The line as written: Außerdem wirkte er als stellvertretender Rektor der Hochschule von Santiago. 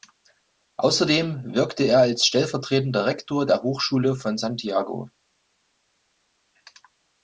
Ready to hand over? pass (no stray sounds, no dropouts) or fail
pass